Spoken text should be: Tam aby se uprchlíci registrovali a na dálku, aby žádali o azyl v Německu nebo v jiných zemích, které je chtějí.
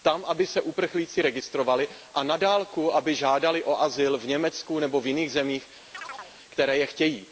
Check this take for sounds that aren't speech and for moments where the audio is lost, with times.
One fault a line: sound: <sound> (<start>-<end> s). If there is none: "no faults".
sound: chirp (5.9-6.3 s)